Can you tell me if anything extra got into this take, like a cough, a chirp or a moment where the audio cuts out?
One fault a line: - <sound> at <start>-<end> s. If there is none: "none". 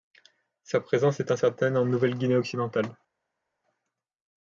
none